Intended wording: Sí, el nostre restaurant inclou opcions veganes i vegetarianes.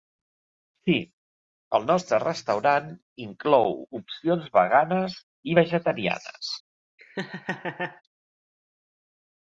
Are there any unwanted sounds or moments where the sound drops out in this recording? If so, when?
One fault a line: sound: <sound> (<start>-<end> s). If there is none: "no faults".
sound: laugh (7.0-8.0 s)